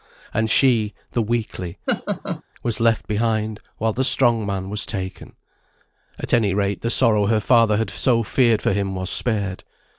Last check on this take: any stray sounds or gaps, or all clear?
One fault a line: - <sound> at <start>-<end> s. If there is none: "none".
- laugh at 1.9-2.4 s